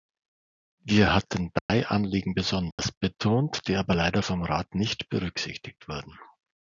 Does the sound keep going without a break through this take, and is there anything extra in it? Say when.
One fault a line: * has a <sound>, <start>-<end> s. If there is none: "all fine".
* has a dropout, 1.6-1.7 s
* has a dropout, 2.7-2.8 s